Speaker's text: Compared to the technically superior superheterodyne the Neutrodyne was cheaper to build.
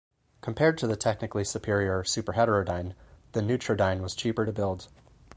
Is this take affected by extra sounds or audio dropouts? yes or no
no